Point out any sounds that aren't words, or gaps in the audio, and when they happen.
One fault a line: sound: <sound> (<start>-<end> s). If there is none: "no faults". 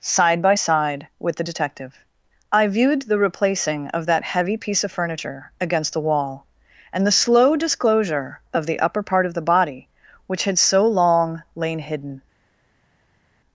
no faults